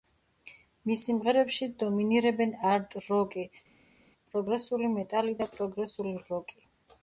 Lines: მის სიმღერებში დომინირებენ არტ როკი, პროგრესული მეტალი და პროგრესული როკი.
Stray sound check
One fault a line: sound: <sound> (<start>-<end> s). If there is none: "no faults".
no faults